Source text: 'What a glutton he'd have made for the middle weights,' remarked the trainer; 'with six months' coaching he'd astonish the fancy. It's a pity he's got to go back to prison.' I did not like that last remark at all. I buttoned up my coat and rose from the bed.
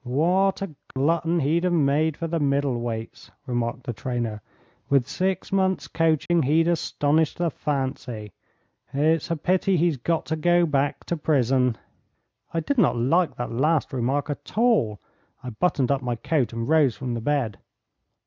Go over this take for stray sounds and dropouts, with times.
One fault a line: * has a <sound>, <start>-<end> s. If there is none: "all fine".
* has a dropout, 0.9-1.0 s
* has a dropout, 6.3-6.3 s